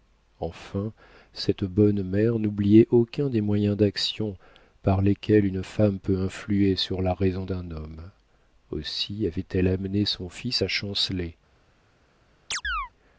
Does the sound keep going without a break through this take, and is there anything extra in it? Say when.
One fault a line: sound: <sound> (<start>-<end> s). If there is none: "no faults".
sound: chirp (12.5-12.9 s)